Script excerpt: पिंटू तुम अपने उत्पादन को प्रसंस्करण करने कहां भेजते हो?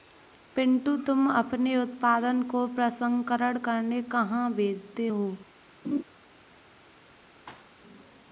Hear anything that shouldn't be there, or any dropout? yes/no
yes